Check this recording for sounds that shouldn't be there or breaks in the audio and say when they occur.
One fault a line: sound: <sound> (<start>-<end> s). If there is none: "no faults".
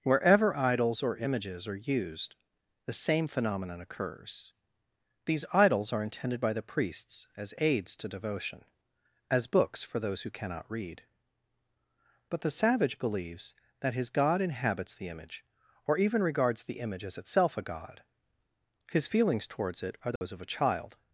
sound: dropout (20.2-20.2 s)